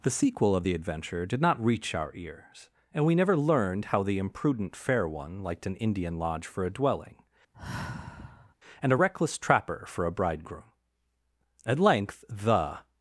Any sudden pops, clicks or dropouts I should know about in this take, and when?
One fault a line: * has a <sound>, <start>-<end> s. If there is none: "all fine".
* has a sigh, 7.5-8.6 s